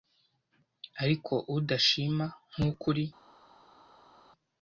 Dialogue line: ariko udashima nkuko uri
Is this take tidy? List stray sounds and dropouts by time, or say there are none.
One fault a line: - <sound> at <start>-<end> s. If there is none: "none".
none